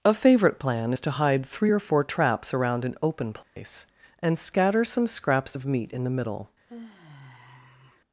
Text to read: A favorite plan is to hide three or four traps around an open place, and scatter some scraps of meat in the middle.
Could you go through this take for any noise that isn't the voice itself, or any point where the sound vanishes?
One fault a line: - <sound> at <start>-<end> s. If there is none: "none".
- dropout at 3.4-3.6 s
- sigh at 6.7-8.0 s